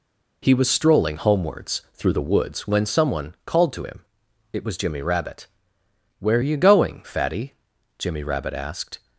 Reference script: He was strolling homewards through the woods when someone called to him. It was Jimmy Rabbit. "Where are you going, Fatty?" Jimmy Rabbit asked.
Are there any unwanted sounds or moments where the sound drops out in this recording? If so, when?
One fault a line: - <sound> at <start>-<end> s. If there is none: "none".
none